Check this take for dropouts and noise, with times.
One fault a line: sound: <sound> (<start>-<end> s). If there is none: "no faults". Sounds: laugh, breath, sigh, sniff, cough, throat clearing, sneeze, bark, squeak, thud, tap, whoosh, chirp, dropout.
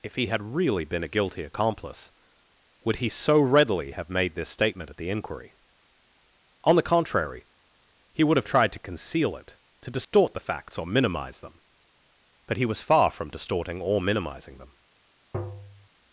sound: dropout (10.0-10.1 s)
sound: tap (15.3-15.9 s)